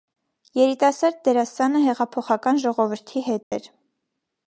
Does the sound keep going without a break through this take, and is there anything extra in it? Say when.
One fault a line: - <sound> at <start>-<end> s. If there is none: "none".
- dropout at 3.4-3.5 s